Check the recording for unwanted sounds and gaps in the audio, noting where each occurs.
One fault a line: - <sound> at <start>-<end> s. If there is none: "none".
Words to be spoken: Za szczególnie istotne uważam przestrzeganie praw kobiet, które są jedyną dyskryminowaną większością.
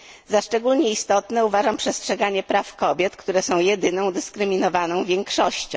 none